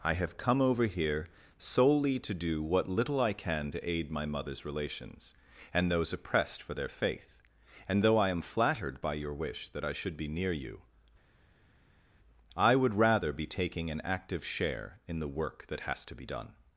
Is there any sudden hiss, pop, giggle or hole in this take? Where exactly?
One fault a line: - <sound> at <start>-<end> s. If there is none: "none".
none